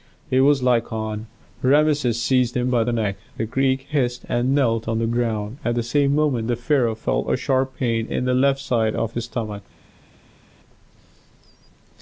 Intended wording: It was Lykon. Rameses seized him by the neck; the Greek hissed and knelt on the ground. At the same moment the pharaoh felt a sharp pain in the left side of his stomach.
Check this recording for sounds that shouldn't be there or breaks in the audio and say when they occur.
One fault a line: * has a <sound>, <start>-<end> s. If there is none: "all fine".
all fine